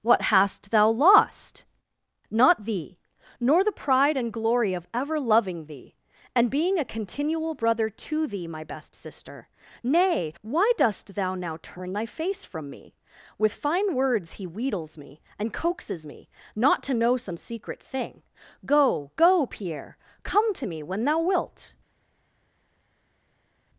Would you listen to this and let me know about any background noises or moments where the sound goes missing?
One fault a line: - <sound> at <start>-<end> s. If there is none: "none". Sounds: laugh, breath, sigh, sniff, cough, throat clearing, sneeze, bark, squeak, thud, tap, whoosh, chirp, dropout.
none